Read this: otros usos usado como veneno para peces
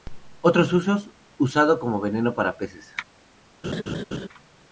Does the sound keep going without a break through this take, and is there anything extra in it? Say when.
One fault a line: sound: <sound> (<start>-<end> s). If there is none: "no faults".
sound: laugh (3.6-4.3 s)